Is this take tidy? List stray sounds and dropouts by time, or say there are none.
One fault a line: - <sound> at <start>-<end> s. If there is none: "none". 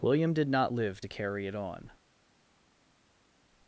none